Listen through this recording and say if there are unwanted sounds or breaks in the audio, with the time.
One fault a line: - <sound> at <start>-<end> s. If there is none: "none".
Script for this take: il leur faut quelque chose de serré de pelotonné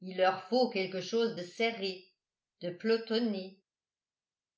none